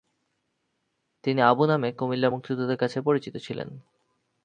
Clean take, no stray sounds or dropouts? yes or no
yes